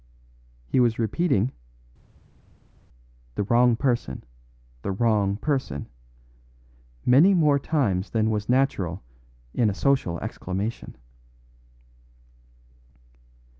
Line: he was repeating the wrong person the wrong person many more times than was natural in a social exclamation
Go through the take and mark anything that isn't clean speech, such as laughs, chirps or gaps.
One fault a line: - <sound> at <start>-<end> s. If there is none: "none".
none